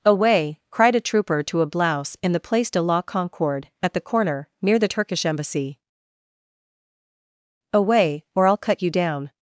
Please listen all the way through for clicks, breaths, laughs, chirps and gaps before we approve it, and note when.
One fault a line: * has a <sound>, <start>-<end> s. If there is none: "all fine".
all fine